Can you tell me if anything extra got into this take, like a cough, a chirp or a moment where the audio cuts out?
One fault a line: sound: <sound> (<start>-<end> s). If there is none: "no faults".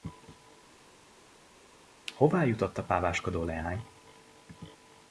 no faults